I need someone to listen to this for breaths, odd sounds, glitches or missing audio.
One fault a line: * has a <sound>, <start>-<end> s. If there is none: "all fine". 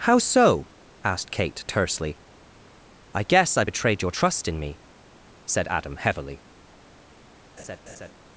* has a laugh, 7.6-8.1 s